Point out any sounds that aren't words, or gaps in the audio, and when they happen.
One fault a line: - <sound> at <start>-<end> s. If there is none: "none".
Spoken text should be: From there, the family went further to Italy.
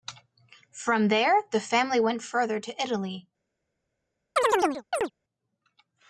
- chirp at 4.4-5.1 s